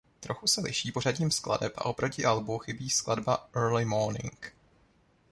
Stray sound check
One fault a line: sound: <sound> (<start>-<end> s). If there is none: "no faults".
no faults